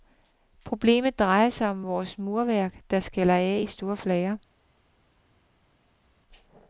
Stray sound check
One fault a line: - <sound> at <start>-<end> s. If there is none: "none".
none